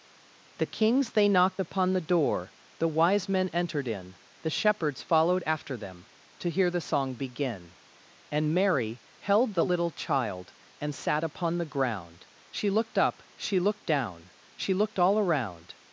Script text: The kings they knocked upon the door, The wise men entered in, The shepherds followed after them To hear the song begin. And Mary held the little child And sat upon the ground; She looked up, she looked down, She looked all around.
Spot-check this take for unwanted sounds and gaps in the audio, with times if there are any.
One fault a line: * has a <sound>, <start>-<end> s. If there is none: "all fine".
all fine